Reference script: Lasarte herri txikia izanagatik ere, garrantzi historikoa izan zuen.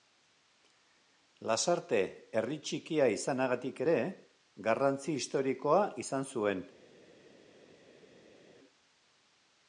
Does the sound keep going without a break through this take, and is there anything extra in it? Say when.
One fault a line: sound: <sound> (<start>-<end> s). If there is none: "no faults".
no faults